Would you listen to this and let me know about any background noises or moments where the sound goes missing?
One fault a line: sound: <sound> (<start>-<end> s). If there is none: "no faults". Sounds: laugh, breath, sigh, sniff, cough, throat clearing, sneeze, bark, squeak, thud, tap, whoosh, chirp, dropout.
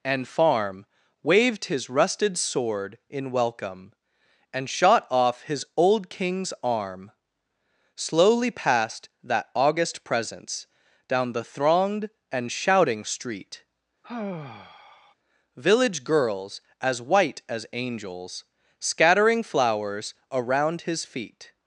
sound: sigh (14.0-15.1 s)